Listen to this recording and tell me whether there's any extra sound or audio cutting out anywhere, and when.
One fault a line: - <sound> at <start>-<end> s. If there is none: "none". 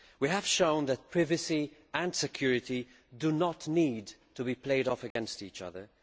- dropout at 5.1-5.2 s